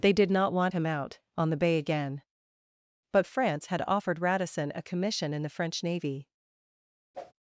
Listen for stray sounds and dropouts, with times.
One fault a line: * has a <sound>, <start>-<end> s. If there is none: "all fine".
* has a whoosh, 7.1-7.3 s